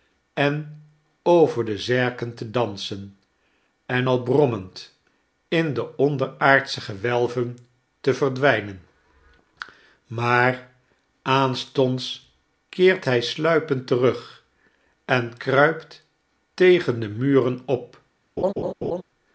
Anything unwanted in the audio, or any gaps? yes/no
yes